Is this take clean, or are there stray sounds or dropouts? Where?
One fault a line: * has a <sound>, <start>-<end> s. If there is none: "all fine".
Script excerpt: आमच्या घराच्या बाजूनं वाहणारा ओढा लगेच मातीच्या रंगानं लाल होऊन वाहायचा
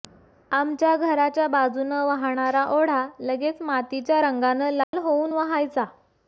* has a dropout, 4.8-4.9 s